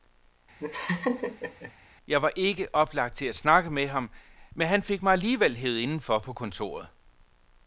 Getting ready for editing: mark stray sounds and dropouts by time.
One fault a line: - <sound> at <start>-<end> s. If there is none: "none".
- laugh at 0.6-1.7 s